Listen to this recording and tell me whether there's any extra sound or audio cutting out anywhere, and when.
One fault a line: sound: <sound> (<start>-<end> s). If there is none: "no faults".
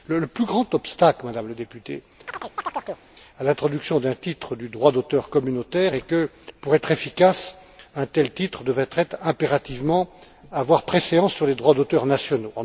sound: chirp (2.3-3.0 s)